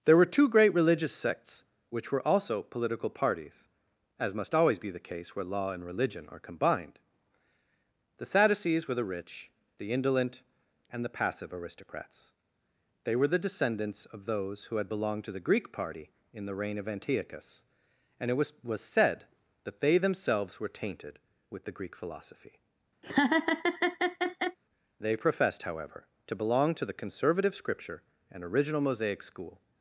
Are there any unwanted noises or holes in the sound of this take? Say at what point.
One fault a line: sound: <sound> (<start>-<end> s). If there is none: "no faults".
sound: laugh (23.0-24.6 s)